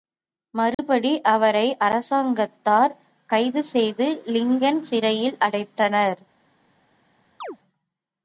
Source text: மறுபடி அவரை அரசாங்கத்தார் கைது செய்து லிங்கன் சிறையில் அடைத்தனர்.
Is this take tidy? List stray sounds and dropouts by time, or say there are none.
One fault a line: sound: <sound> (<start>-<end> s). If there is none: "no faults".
sound: dropout (0.7-0.8 s)
sound: chirp (7.4-7.6 s)